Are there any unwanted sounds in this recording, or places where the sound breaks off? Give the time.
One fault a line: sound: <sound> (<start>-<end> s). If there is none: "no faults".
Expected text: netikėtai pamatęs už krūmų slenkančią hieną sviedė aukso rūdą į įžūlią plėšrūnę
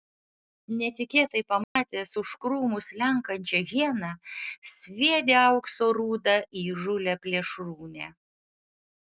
sound: dropout (1.6-1.8 s)